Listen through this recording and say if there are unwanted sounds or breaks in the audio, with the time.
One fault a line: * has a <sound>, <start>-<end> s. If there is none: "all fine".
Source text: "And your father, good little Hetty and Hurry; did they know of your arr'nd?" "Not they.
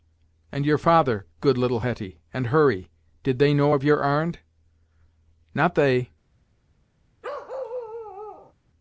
* has a bark, 7.2-8.5 s